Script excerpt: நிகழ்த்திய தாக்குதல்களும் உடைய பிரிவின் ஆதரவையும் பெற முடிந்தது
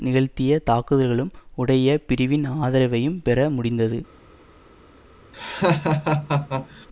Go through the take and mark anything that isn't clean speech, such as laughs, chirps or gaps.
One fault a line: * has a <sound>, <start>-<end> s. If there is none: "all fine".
* has a laugh, 5.3-6.9 s